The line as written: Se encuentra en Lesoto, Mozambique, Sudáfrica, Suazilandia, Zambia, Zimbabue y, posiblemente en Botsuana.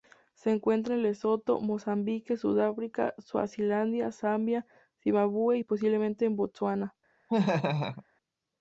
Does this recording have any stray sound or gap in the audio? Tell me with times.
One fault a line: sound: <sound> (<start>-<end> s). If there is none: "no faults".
sound: laugh (7.3-8.0 s)